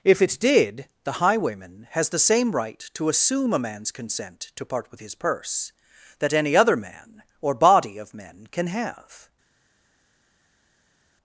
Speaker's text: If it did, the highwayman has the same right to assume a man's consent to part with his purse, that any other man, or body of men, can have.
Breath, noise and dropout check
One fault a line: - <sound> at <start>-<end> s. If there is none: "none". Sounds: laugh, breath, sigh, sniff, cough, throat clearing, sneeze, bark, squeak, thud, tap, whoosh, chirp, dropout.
none